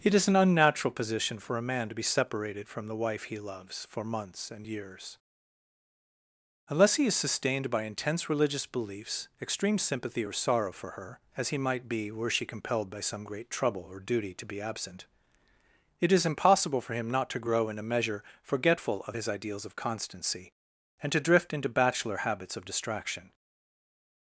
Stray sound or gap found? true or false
false